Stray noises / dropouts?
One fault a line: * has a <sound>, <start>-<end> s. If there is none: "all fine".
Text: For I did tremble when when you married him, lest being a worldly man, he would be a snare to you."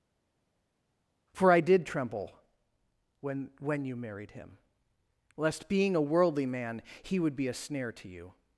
all fine